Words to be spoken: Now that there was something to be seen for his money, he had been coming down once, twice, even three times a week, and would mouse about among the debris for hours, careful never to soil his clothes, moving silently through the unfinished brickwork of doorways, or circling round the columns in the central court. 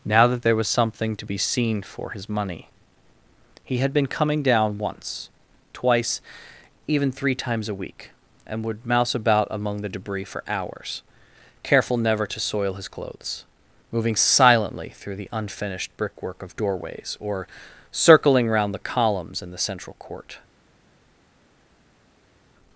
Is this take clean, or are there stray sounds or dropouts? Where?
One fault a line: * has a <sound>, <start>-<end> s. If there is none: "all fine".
all fine